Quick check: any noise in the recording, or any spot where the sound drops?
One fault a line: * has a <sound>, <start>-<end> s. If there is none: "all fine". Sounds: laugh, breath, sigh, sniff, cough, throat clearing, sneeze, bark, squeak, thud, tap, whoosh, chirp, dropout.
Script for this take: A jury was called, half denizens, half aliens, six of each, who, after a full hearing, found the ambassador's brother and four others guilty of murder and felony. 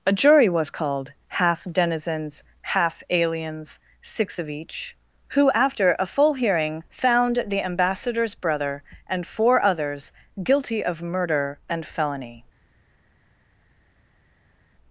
all fine